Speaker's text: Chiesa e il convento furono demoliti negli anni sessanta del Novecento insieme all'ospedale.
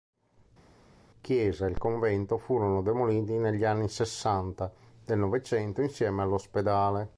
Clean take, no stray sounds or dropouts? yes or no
yes